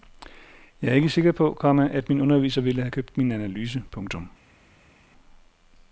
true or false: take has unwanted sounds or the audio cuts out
false